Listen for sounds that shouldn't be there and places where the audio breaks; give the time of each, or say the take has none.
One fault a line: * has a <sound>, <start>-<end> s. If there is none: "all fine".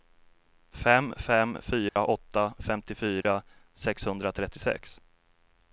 * has a dropout, 1.9-2.0 s
* has a dropout, 3.2-3.2 s